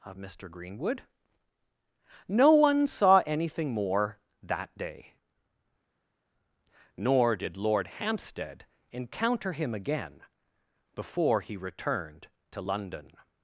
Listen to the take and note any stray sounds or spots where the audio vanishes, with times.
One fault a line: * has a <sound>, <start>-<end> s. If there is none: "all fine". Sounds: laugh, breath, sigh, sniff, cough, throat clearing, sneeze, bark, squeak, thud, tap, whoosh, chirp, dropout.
all fine